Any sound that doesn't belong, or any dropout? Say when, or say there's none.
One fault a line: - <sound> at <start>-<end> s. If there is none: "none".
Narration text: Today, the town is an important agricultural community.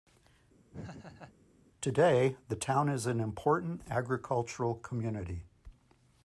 - laugh at 0.7-1.4 s